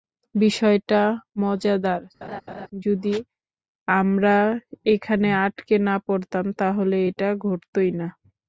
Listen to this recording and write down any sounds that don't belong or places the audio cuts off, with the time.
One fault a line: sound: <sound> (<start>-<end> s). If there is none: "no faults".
sound: laugh (2.2-2.7 s)